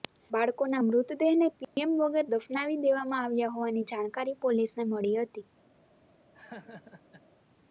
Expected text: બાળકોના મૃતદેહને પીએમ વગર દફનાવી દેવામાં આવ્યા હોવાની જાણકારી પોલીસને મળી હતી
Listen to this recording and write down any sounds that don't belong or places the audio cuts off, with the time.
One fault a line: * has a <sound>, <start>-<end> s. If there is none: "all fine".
* has a dropout, 1.6-1.8 s
* has a laugh, 6.3-7.2 s